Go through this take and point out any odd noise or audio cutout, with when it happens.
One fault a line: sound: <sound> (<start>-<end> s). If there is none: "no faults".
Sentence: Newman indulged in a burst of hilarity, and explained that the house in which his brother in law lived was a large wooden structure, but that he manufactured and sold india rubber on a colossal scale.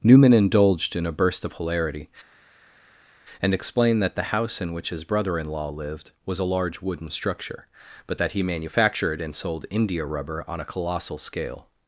no faults